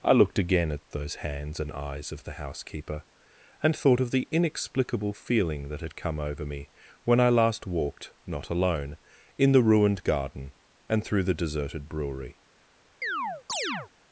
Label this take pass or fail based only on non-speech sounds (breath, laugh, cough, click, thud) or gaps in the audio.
fail